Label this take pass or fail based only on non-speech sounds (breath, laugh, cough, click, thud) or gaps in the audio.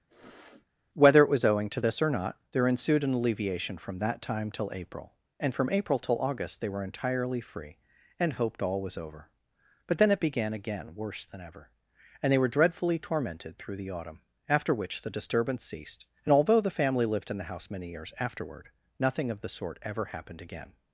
fail